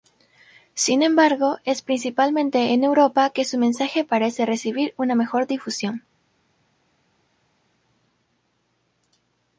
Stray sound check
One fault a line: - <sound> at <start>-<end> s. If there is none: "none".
none